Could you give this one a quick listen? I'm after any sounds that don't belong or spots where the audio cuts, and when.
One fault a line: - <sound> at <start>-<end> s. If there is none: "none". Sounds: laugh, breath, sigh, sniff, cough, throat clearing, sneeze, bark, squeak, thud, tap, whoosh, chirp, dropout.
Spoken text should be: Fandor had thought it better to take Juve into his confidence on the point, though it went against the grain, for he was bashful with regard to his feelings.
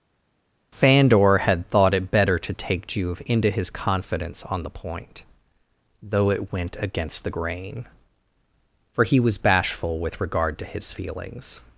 none